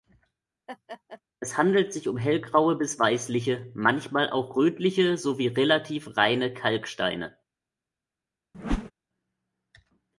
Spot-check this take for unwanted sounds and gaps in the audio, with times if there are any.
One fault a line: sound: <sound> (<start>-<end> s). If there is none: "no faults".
sound: laugh (0.7-1.2 s)
sound: whoosh (8.5-8.9 s)